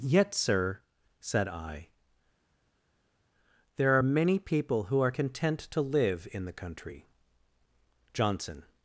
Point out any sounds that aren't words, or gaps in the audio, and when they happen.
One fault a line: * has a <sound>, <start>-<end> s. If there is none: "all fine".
all fine